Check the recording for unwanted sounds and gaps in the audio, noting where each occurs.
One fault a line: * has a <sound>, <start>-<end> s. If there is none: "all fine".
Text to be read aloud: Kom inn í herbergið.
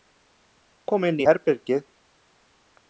all fine